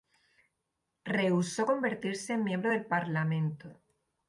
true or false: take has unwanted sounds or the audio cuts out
false